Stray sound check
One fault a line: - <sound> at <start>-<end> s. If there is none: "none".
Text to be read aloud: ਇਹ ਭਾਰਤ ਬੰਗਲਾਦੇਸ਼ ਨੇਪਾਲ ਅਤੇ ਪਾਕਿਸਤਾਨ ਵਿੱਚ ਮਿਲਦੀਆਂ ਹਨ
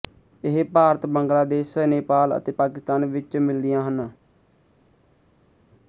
none